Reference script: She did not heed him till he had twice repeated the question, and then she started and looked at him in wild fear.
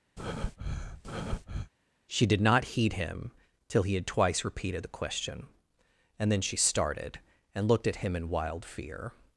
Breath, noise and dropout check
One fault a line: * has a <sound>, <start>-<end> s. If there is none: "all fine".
* has a breath, 0.2-1.7 s